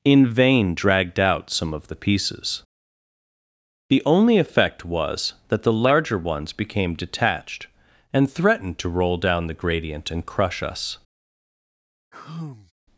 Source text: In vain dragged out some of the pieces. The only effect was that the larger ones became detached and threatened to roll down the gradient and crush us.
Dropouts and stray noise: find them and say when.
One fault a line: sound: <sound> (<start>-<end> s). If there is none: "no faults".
sound: sigh (12.1-12.7 s)